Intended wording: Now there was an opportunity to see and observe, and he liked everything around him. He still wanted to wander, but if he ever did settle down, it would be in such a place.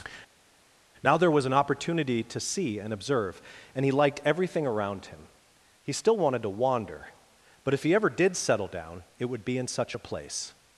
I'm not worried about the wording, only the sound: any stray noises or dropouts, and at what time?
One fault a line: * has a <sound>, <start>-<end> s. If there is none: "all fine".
all fine